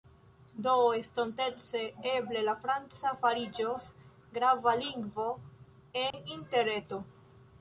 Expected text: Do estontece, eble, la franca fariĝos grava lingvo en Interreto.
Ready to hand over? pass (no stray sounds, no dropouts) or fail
fail